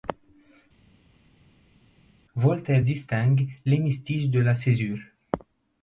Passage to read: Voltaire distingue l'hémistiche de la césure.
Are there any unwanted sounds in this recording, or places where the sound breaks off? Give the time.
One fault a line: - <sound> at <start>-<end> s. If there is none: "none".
none